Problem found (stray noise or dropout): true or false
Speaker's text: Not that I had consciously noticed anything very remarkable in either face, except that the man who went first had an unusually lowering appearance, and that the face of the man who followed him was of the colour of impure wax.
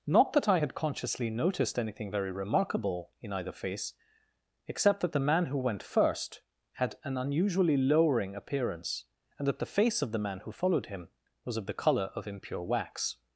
false